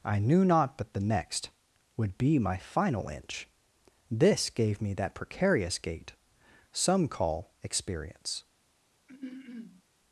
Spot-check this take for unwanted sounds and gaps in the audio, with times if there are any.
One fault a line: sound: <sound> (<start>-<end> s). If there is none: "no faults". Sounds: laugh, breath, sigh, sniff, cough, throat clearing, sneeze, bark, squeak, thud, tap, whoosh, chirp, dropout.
sound: throat clearing (9.1-9.8 s)